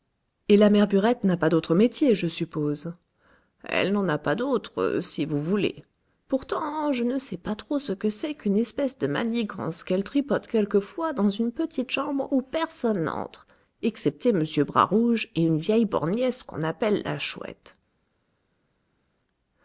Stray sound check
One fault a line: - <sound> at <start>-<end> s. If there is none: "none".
none